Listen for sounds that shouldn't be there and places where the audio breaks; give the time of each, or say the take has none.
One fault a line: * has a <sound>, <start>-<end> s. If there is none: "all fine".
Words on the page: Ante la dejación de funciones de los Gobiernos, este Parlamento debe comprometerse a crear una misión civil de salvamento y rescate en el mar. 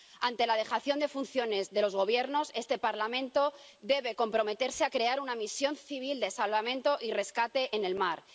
all fine